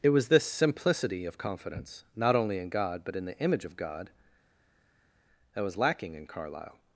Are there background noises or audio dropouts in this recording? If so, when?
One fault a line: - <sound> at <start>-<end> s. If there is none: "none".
none